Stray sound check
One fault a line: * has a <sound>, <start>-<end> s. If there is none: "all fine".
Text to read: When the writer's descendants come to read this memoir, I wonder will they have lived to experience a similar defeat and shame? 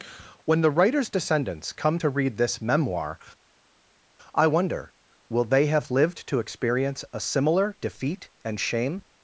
all fine